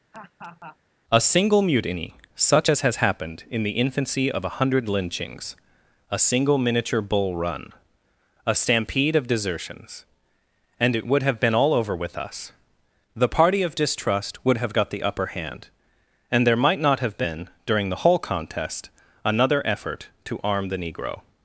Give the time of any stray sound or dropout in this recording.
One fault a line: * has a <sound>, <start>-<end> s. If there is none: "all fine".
* has a laugh, 0.1-0.8 s